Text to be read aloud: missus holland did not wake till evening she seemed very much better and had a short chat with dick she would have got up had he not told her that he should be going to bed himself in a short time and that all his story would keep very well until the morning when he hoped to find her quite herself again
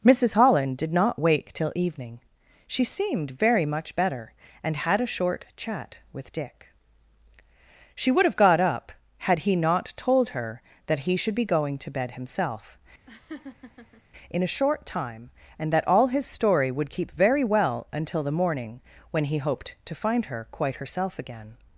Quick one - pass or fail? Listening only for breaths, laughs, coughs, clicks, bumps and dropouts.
fail